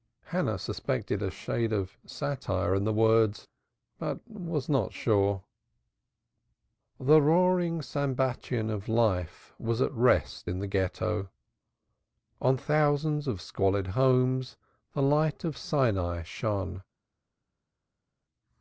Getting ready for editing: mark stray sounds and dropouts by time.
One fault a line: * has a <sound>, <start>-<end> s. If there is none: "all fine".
all fine